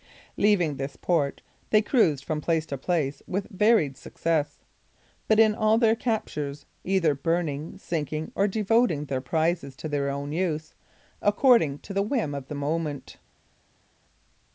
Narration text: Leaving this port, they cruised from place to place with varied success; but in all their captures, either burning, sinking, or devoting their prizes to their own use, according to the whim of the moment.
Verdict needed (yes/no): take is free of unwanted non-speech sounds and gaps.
yes